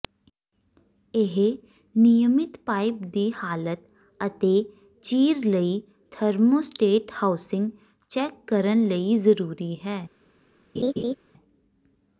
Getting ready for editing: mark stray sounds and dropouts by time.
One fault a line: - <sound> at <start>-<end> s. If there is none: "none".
- laugh at 10.8-11.2 s